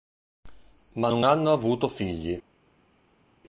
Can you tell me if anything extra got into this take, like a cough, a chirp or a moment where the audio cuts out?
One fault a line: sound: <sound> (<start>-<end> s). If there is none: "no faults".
no faults